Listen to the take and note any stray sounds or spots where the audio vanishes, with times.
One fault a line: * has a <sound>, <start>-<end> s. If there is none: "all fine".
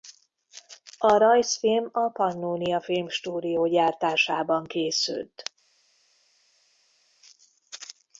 all fine